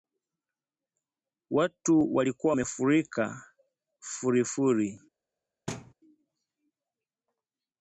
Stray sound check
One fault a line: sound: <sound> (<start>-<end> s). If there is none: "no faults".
sound: thud (5.7-5.9 s)